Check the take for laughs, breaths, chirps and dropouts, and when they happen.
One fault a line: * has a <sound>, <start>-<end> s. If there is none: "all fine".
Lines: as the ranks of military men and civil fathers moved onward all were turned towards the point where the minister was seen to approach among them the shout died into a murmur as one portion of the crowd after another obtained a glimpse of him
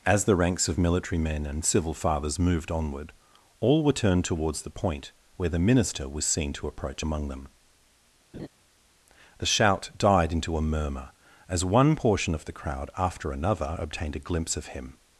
* has a laugh, 8.3-8.5 s